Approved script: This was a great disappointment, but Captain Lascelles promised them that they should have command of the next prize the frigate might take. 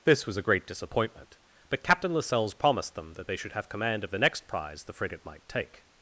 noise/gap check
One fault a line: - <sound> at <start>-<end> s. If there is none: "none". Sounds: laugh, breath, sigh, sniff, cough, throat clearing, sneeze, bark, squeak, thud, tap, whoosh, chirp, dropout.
none